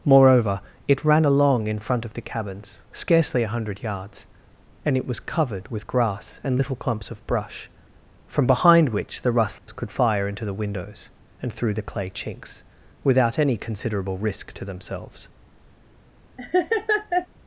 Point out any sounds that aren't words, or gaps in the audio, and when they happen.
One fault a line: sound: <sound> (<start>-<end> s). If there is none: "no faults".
sound: dropout (9.6-9.7 s)
sound: laugh (16.4-17.3 s)